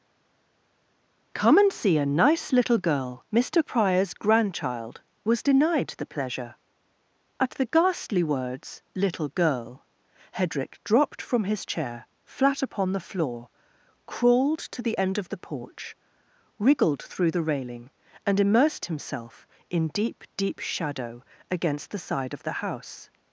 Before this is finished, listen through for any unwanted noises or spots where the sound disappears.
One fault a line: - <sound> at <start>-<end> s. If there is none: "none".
none